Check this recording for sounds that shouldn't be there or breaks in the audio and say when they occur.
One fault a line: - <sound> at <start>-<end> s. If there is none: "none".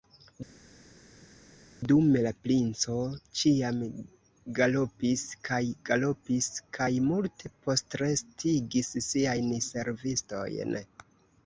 none